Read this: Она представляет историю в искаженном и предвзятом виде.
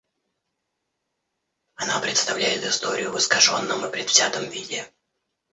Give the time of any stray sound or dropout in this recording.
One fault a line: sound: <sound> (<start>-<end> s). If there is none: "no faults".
no faults